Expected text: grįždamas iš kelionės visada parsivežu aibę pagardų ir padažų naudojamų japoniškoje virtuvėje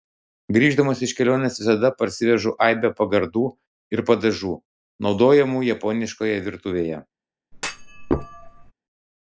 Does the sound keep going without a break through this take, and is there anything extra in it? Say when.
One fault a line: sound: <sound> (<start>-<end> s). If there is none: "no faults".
sound: thud (7.5-8.7 s)